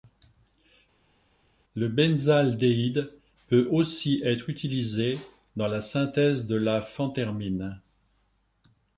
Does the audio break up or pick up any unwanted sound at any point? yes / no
no